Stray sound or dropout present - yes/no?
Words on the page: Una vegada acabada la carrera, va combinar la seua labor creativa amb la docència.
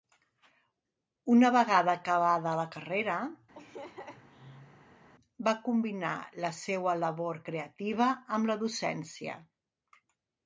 yes